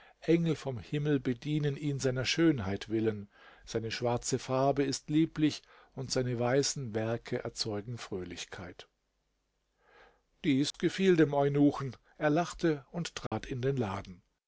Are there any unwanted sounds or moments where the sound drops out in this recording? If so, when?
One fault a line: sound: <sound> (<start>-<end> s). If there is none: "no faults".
sound: dropout (10.7-10.7 s)
sound: dropout (13.3-13.3 s)